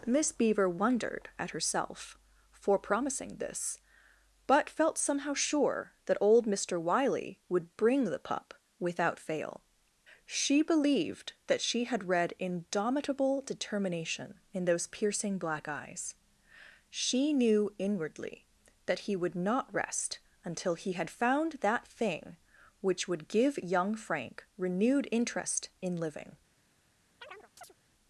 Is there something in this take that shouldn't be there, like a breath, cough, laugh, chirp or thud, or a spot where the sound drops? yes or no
yes